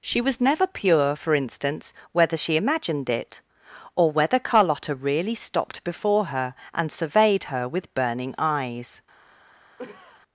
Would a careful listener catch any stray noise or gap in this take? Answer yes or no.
yes